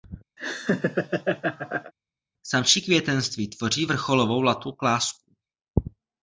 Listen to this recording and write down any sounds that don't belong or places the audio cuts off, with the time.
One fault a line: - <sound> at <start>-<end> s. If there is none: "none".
- laugh at 0.4-1.9 s